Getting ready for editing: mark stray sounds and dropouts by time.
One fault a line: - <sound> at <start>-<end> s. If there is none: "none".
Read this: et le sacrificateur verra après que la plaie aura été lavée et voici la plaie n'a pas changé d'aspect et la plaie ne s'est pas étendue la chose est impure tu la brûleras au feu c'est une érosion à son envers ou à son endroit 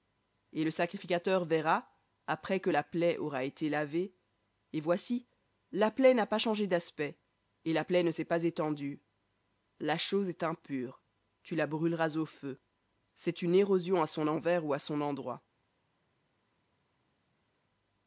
none